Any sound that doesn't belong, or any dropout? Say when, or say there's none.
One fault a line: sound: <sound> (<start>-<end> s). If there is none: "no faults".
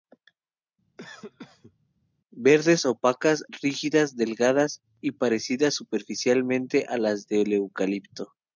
sound: cough (1.0-1.8 s)